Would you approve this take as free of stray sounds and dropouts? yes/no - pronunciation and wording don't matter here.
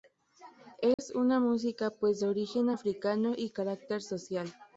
no